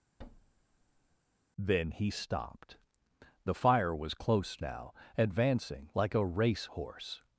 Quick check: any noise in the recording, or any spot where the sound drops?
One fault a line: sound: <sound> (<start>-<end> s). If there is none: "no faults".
sound: thud (0.2-1.2 s)